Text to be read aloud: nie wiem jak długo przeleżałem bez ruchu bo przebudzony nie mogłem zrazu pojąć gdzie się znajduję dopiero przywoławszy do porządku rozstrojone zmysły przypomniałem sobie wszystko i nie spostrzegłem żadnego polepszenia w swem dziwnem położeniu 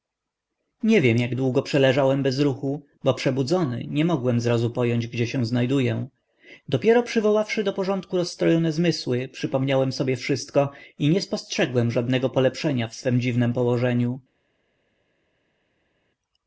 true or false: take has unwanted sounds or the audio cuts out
false